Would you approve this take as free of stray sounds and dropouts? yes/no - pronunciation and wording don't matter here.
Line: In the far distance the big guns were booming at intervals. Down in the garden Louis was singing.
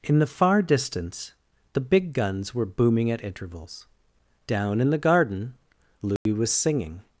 no